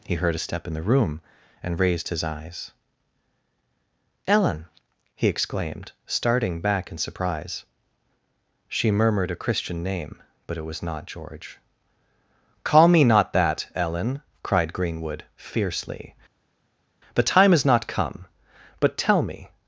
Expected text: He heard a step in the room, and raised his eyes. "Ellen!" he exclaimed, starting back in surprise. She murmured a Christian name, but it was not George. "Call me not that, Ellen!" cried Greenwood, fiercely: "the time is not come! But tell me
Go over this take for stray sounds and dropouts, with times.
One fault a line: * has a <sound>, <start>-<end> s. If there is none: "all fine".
all fine